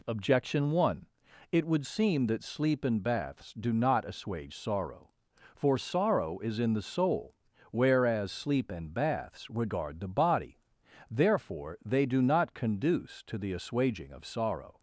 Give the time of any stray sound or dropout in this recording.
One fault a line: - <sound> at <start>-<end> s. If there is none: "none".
none